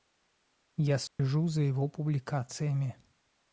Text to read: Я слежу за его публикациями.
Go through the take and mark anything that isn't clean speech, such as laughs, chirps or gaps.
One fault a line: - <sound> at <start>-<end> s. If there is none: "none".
- dropout at 1.1-1.2 s